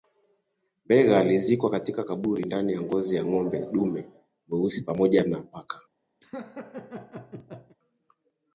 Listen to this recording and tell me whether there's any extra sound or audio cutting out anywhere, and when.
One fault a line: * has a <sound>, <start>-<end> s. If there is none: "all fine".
* has a laugh, 6.2-7.8 s